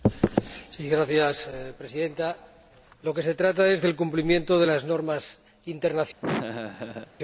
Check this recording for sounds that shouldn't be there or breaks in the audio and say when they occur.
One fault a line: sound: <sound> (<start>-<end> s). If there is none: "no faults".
sound: laugh (6.2-7.1 s)